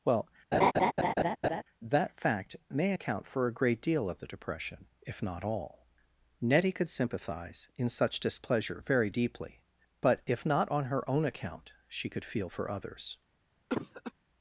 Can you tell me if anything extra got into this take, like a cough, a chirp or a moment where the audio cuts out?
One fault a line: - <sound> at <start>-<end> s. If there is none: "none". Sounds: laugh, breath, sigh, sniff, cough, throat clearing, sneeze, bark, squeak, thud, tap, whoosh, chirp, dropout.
- laugh at 0.5-1.6 s
- cough at 13.7-14.1 s